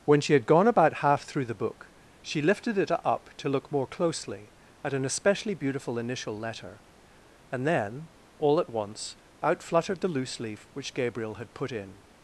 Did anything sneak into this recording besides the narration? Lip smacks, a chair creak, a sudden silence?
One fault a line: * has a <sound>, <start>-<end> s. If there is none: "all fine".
all fine